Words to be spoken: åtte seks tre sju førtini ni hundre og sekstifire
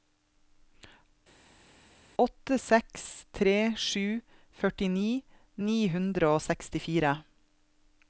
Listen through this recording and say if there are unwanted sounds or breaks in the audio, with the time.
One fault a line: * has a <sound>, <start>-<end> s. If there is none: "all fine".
all fine